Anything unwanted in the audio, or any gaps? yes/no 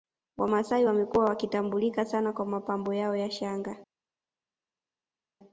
no